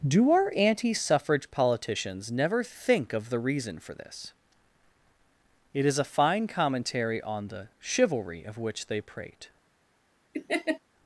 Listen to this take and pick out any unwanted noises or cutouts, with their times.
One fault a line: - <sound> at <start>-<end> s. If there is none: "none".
- laugh at 10.3-10.8 s